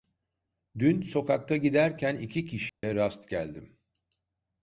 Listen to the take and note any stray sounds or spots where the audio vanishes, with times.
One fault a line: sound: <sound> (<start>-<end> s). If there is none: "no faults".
sound: dropout (2.7-2.8 s)